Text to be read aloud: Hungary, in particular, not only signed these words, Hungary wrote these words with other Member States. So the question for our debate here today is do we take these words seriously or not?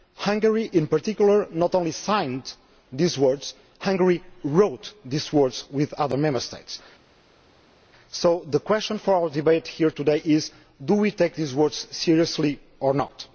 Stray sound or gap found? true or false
false